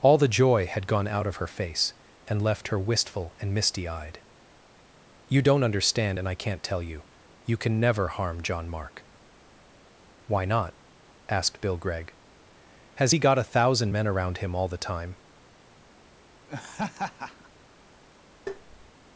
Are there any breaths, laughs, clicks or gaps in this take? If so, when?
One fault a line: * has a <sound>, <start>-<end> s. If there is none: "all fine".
* has a laugh, 16.5-17.5 s
* has a tap, 18.5-18.9 s